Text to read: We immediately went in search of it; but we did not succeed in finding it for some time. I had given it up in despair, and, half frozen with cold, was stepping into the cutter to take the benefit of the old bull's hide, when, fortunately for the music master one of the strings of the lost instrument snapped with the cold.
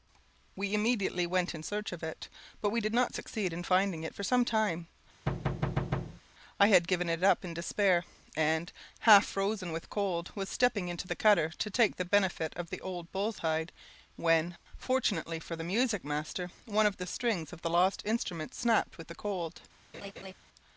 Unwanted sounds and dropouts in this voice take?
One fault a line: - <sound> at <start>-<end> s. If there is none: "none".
- thud at 5.3-6.2 s
- laugh at 19.9-20.3 s